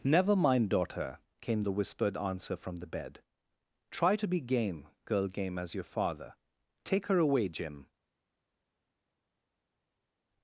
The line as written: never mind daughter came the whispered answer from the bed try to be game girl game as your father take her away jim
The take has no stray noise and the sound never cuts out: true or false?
true